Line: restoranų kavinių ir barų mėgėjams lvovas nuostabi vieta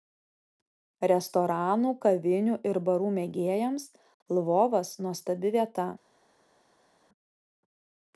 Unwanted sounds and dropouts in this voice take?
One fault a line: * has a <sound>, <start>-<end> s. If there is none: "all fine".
all fine